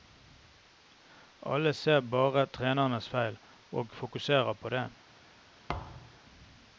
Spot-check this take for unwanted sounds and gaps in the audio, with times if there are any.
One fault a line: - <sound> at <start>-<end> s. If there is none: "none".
- thud at 5.7-6.2 s